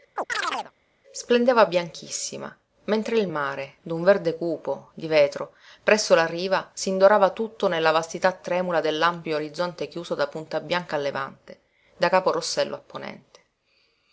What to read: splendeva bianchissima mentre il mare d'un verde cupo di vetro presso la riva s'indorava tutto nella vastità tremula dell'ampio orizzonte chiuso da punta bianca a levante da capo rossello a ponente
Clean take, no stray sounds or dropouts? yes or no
no